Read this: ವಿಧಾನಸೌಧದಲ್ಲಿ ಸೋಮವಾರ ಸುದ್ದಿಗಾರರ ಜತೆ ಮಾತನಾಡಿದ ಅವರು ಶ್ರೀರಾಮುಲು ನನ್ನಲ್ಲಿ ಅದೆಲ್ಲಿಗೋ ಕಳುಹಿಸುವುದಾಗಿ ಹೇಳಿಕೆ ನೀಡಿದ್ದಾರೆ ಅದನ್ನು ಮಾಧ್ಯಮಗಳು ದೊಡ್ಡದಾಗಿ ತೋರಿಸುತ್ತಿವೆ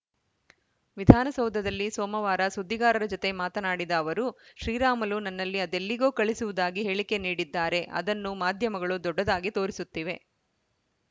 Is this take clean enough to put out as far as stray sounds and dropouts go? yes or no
yes